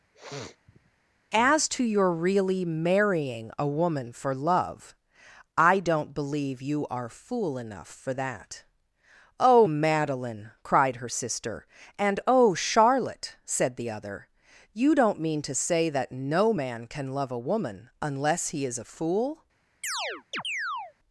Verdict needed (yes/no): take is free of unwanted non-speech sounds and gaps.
no